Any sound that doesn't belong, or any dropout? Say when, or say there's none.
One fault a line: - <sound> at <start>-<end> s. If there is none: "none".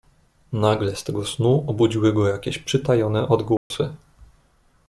- dropout at 3.6-3.7 s